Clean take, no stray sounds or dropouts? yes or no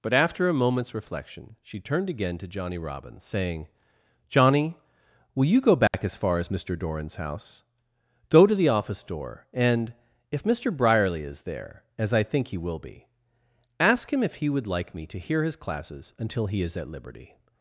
no